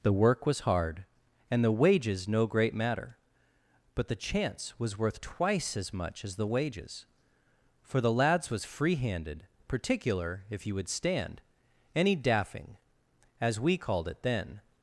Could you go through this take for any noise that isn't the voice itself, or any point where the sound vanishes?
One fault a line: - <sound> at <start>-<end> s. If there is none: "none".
none